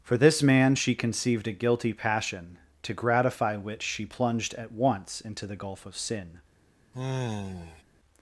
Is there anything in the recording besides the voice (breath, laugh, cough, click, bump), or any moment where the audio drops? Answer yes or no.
yes